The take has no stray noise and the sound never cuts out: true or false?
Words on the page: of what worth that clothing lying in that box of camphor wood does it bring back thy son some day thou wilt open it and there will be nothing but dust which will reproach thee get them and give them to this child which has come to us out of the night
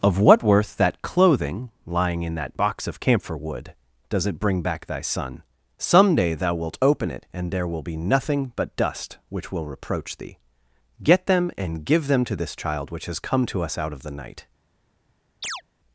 false